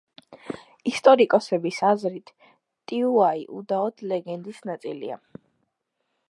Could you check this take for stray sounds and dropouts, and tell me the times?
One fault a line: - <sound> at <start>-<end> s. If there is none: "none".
none